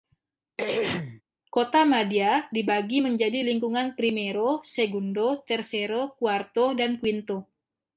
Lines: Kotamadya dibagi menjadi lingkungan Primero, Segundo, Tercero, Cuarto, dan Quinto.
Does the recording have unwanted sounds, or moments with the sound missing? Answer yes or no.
yes